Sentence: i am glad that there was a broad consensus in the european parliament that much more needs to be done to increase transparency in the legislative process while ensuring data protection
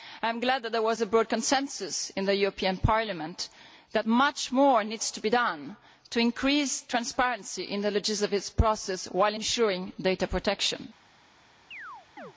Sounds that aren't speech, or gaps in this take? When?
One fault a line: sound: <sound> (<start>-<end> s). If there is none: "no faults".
sound: chirp (11.7-12.3 s)